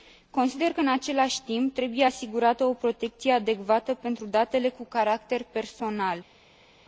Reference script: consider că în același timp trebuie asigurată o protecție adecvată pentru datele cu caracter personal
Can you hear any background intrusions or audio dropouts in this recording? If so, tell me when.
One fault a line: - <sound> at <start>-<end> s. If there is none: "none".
none